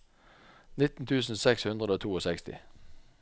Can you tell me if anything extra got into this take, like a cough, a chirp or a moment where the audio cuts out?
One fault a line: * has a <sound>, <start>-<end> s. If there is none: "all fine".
all fine